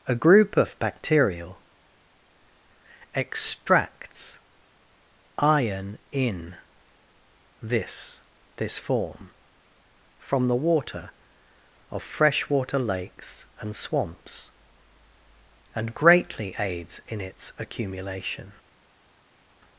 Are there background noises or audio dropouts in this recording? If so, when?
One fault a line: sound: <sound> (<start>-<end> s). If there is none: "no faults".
no faults